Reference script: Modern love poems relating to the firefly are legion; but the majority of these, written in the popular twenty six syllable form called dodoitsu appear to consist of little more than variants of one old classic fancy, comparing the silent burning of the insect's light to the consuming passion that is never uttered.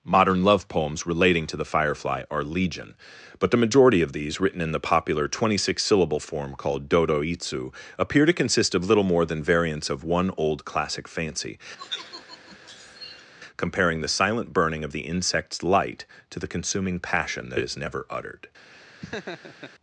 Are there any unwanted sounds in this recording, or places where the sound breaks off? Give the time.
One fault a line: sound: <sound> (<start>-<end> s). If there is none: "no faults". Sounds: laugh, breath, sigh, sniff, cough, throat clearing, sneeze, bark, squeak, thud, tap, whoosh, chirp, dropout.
sound: sigh (11.8-13.3 s)
sound: laugh (18.7-19.7 s)